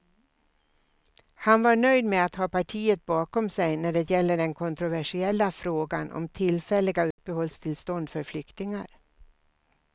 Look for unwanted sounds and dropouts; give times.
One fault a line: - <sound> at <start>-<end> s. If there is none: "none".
- dropout at 7.1-7.2 s